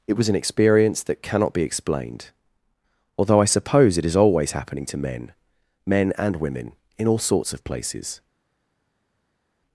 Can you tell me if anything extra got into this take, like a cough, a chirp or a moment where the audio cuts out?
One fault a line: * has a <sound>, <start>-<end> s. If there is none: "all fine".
all fine